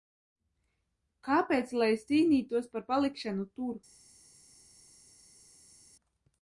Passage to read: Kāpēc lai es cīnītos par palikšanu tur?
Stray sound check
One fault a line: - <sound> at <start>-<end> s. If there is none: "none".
none